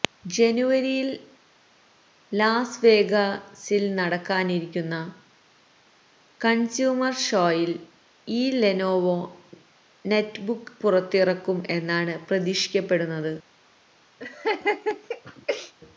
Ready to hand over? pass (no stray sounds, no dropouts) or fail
fail